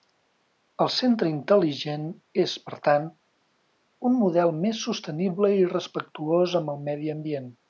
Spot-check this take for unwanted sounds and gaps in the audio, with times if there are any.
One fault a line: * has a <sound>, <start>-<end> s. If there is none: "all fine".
all fine